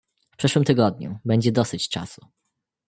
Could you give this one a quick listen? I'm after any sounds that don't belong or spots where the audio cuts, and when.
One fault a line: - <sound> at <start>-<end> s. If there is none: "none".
none